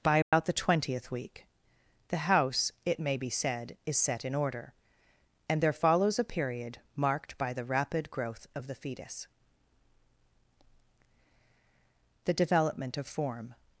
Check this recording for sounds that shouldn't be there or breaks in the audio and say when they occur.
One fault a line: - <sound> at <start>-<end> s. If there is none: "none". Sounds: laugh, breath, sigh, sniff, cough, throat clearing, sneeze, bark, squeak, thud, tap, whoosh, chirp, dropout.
- dropout at 0.2-0.3 s